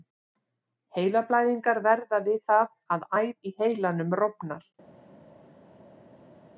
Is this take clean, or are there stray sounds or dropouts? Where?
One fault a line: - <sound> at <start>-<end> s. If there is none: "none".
none